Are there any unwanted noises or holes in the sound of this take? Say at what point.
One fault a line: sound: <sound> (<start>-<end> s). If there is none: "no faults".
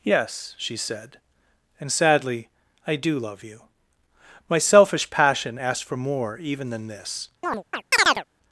sound: chirp (7.4-8.2 s)